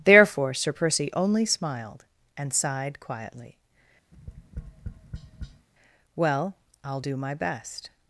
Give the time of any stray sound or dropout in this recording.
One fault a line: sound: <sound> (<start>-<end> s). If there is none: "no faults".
sound: tap (4.1-5.7 s)